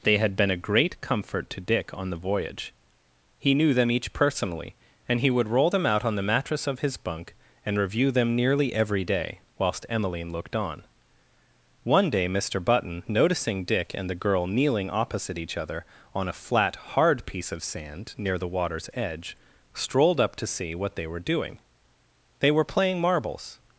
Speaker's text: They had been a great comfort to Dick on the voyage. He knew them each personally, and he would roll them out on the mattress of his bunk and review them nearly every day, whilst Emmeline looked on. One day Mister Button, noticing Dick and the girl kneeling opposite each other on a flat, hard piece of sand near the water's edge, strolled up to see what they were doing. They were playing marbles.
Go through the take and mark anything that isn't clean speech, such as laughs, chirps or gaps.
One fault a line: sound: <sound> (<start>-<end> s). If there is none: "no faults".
no faults